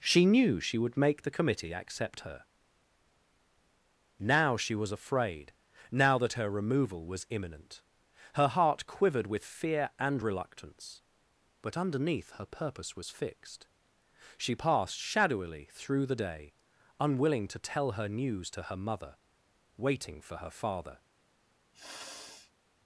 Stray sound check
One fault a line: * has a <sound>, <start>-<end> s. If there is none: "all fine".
* has a sniff, 21.7-22.5 s